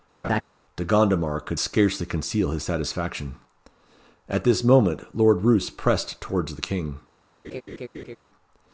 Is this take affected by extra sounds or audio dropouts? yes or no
yes